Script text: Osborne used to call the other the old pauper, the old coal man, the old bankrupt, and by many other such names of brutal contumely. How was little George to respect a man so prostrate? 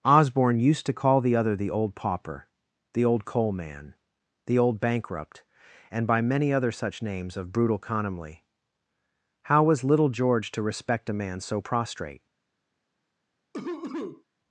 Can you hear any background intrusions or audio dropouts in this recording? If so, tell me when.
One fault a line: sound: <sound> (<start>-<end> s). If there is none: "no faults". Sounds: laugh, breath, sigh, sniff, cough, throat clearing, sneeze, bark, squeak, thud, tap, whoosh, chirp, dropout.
sound: cough (13.5-14.2 s)